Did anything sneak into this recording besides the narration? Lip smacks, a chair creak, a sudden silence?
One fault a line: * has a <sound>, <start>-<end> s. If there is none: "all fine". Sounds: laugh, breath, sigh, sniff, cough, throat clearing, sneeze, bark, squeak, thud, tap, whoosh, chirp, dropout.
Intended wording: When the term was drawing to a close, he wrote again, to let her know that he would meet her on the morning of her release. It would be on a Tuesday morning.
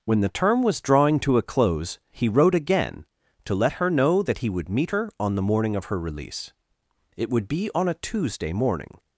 all fine